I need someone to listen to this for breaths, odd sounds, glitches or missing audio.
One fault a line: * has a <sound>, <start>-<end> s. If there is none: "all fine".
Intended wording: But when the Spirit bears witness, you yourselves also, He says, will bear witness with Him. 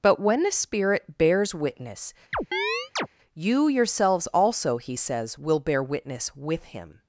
* has a chirp, 2.3-3.1 s